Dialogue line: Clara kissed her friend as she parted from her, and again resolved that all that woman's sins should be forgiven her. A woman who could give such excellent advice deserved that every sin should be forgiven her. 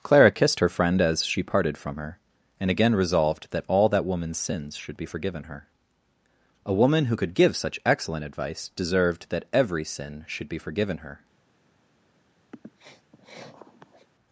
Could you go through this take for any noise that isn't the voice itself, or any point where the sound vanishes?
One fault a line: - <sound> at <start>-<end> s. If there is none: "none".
- sniff at 12.5-14.1 s